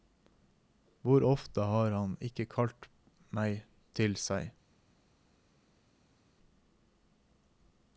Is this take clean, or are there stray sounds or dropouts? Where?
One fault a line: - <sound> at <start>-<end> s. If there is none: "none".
none